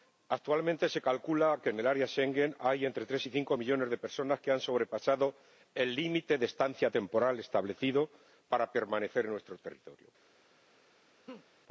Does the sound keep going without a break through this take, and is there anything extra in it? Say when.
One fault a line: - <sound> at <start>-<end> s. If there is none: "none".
- laugh at 11.3-11.5 s